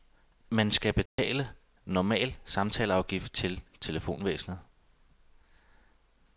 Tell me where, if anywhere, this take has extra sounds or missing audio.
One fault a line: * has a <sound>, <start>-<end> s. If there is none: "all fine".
* has a dropout, 1.1-1.2 s